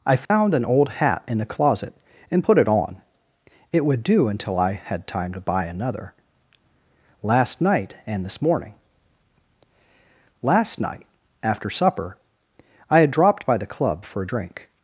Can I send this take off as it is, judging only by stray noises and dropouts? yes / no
no